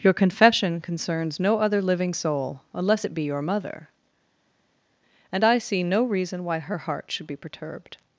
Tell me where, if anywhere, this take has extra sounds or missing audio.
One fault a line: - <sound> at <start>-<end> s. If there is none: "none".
none